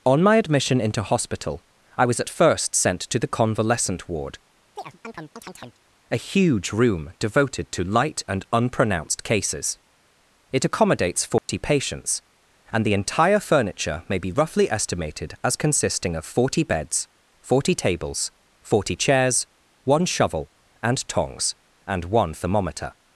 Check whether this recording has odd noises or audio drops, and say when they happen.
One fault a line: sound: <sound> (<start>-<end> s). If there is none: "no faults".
sound: chirp (4.8-5.8 s)
sound: dropout (11.4-11.5 s)